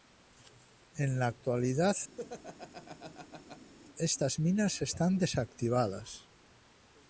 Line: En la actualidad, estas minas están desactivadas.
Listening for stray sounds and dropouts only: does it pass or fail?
fail